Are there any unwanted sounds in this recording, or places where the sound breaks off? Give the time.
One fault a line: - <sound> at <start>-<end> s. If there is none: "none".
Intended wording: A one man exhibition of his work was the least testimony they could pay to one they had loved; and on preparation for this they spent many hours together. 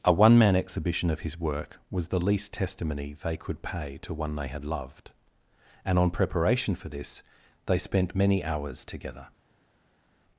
none